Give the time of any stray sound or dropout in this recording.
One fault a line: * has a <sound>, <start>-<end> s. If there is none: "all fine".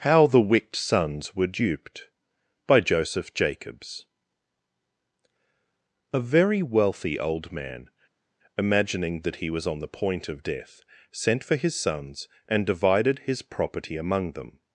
all fine